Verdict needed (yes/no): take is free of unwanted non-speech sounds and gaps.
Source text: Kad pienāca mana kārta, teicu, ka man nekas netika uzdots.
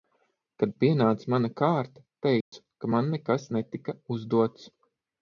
no